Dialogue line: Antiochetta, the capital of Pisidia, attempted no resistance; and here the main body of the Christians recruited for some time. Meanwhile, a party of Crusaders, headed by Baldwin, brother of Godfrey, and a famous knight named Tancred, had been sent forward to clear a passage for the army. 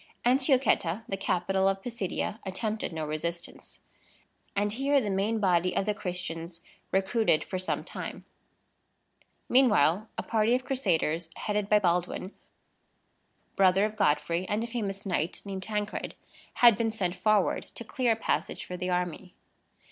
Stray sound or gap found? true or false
false